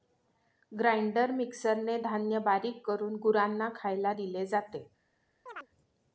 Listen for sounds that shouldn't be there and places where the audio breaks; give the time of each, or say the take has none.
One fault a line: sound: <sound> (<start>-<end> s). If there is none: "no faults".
sound: chirp (5.5-5.7 s)